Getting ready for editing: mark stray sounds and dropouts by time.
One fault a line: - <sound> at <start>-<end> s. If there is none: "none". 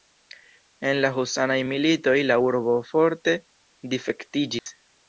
- dropout at 4.6-4.7 s